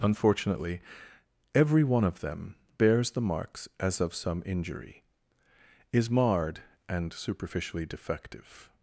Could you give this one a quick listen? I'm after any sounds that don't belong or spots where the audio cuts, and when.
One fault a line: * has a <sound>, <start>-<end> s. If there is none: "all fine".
all fine